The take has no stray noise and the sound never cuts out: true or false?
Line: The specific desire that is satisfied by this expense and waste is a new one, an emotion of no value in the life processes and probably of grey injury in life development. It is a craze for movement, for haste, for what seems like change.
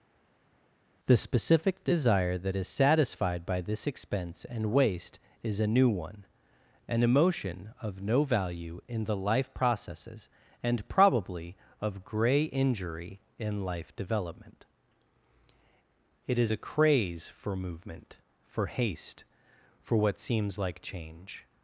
true